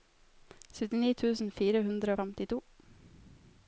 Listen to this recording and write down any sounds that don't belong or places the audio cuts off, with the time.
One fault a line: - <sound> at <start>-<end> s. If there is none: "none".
none